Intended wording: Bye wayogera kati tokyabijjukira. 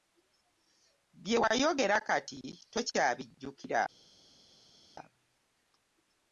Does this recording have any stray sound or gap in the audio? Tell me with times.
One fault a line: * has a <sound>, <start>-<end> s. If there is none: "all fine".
all fine